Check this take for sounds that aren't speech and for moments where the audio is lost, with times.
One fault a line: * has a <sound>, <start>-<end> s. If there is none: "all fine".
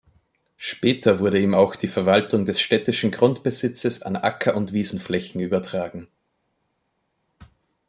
all fine